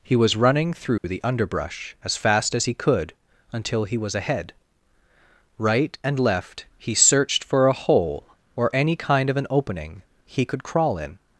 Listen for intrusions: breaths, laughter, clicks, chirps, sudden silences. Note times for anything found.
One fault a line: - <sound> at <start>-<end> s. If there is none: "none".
- dropout at 1.0-1.0 s